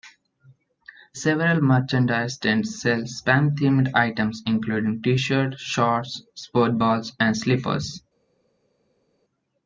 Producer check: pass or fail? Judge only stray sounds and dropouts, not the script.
pass